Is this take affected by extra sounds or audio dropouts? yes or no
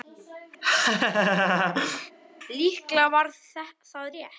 yes